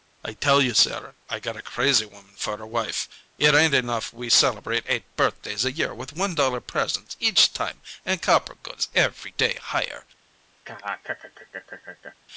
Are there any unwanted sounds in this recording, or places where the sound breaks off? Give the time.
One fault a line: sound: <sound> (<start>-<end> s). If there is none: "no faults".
sound: laugh (10.6-12.2 s)